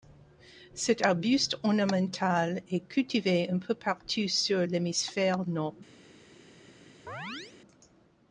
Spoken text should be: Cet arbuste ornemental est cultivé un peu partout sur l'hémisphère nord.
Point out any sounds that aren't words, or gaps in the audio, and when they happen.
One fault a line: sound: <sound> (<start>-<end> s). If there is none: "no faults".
sound: chirp (7.1-7.6 s)